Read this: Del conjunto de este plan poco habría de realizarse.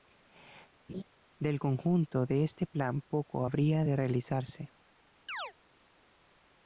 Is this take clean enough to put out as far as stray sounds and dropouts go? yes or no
no